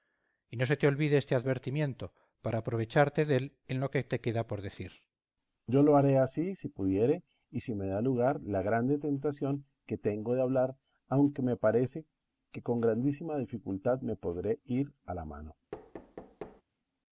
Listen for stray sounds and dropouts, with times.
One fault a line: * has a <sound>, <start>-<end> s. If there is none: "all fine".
* has a thud, 15.7-16.6 s